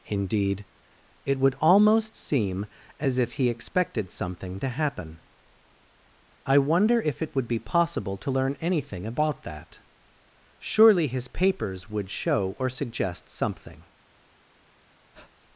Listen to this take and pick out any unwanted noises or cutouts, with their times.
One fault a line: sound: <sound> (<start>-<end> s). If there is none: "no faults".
sound: breath (15.1-15.3 s)